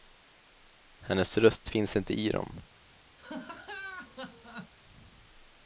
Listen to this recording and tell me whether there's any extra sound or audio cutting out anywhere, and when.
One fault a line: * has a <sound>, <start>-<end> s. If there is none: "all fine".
* has a laugh, 3.2-4.7 s